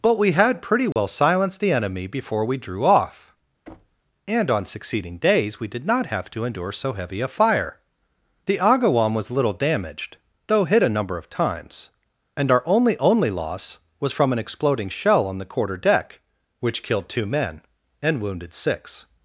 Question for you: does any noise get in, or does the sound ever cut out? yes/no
yes